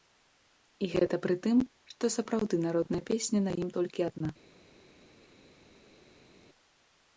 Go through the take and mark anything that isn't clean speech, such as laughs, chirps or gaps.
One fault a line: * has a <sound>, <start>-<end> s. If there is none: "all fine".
all fine